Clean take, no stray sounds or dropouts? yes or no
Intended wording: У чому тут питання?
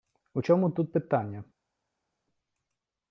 yes